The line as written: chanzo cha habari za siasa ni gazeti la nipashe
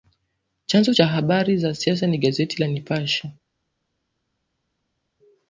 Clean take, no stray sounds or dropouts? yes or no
yes